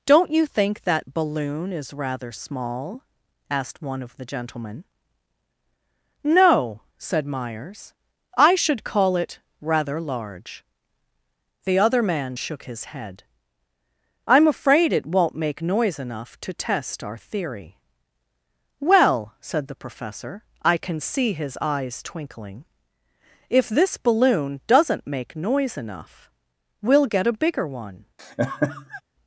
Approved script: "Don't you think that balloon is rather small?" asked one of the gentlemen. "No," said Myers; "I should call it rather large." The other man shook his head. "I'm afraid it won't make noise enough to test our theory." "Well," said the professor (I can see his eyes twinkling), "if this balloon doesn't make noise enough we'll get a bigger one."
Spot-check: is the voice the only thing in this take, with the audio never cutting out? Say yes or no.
no